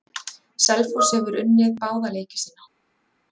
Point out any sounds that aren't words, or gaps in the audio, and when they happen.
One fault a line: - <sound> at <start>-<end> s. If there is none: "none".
none